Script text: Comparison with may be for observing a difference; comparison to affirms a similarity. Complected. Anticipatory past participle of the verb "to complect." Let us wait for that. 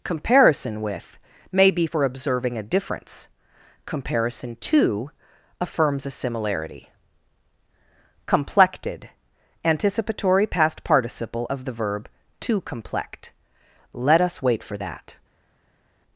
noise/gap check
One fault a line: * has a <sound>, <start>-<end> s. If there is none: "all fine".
all fine